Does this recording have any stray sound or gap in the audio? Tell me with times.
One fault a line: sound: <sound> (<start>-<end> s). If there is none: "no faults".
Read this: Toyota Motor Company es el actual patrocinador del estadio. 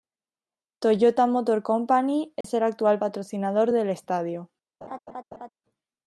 sound: dropout (2.4-2.4 s)
sound: laugh (4.8-5.5 s)